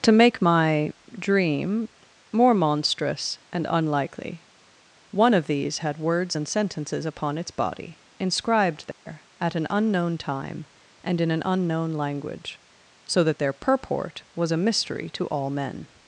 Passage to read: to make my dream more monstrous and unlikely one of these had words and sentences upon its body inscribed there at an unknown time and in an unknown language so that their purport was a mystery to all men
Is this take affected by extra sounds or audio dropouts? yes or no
yes